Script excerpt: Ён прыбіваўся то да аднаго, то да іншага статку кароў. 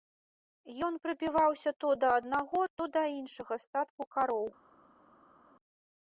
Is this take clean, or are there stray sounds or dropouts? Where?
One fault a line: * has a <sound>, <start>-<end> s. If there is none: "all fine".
all fine